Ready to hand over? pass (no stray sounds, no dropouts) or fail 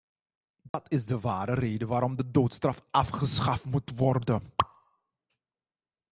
fail